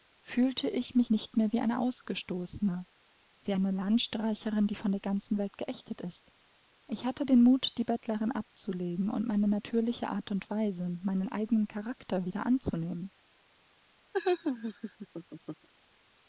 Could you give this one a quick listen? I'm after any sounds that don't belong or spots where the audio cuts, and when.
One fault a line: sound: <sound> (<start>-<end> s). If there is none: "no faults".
sound: laugh (14.1-15.7 s)